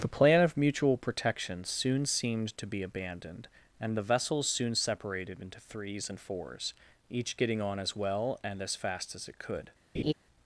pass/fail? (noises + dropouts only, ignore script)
fail